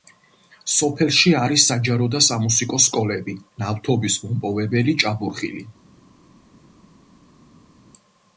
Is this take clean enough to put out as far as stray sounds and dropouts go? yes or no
yes